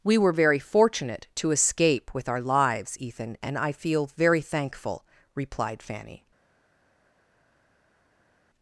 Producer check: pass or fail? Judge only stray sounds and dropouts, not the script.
pass